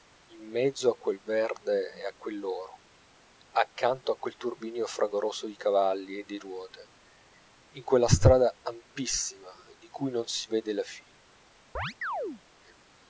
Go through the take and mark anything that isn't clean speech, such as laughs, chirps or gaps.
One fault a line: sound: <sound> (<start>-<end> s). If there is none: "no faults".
sound: chirp (11.7-12.4 s)